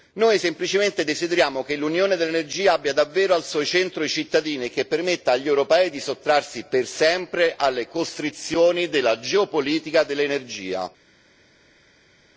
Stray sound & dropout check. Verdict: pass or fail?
pass